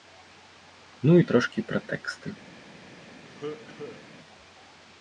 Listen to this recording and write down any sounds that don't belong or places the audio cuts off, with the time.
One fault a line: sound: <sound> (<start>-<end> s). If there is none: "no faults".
sound: cough (3.3-4.1 s)